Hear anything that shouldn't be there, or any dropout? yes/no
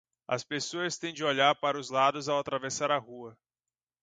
no